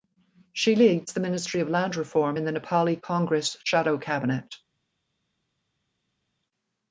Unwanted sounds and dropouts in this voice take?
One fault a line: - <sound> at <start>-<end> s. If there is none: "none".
none